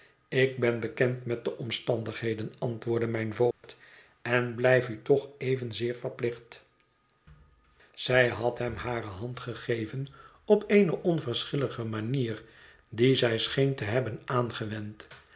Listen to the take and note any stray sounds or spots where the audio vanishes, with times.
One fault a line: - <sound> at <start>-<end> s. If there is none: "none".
- dropout at 3.5-3.6 s